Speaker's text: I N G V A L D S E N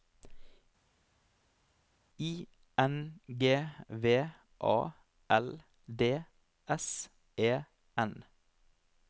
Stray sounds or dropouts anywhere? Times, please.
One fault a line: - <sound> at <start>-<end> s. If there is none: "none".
none